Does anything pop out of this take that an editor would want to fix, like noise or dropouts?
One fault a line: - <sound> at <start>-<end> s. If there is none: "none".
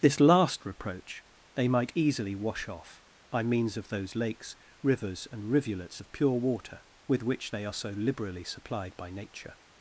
none